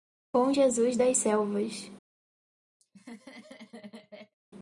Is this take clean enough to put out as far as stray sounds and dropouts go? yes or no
no